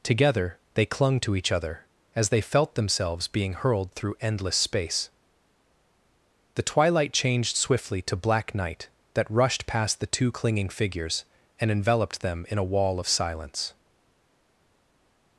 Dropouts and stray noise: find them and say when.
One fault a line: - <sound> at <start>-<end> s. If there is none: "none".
none